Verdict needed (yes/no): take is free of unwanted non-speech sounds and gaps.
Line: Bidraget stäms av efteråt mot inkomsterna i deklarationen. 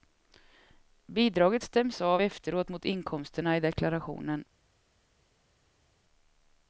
yes